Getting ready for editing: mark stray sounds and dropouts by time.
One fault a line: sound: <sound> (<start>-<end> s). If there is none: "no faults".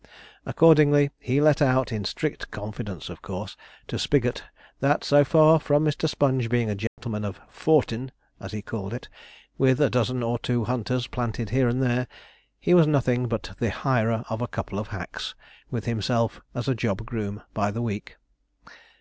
sound: dropout (6.9-7.0 s)